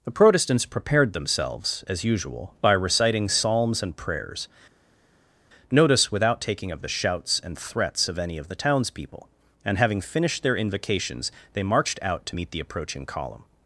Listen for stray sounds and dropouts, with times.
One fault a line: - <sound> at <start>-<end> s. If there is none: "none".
none